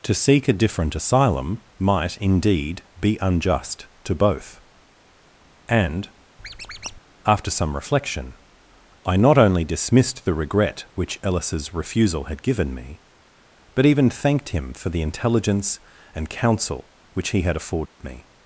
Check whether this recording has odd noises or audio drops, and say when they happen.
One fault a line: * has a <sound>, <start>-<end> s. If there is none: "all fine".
* has a squeak, 6.4-7.0 s
* has a dropout, 17.9-18.0 s